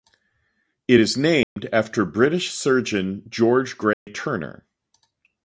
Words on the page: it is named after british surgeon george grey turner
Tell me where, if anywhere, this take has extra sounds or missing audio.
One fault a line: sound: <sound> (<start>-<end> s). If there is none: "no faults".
sound: dropout (1.4-1.6 s)
sound: dropout (3.9-4.1 s)